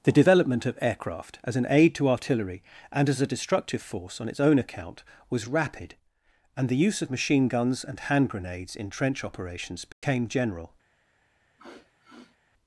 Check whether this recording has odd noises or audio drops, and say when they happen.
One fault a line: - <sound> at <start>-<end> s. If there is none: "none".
- dropout at 9.9-10.0 s
- sniff at 11.6-12.4 s